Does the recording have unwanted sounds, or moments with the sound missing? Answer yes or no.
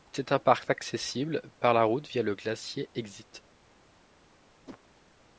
yes